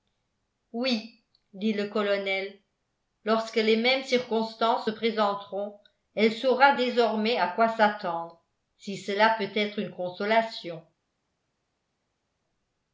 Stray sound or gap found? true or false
false